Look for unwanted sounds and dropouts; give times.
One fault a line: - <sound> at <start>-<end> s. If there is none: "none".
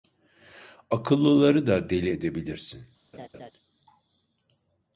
- laugh at 3.1-3.5 s